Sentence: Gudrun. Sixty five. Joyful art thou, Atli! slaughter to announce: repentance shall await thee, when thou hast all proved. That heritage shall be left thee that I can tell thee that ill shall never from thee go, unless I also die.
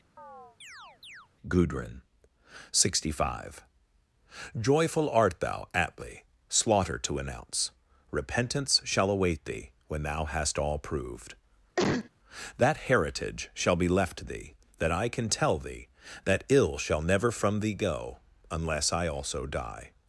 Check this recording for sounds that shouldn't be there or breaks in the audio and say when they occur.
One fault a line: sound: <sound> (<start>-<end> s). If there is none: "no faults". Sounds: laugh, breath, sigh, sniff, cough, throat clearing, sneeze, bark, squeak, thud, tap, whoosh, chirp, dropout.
sound: chirp (0.2-1.3 s)
sound: cough (11.8-12.1 s)